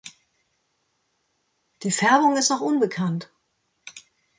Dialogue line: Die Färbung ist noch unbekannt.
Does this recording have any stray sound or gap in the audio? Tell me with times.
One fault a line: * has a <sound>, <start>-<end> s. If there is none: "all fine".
all fine